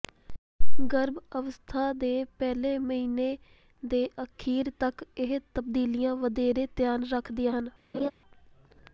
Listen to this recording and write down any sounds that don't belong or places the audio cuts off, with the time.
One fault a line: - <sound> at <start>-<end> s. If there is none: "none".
- laugh at 7.9-8.1 s